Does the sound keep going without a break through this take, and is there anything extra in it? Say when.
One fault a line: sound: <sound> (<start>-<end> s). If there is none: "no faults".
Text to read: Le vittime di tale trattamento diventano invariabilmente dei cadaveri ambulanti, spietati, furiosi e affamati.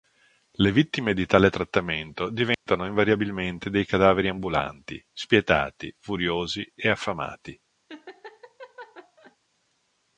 sound: dropout (2.5-2.7 s)
sound: laugh (7.9-9.4 s)